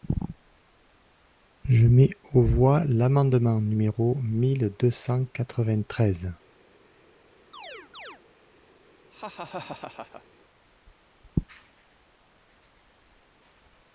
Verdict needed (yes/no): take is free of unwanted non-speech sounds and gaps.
no